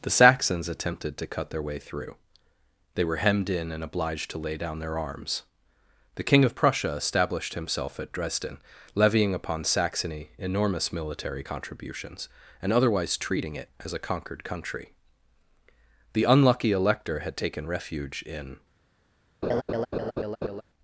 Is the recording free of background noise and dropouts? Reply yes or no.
no